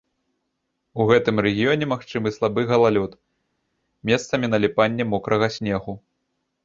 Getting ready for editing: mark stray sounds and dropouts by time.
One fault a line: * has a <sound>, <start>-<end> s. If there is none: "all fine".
all fine